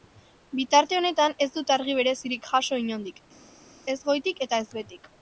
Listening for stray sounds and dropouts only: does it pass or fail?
pass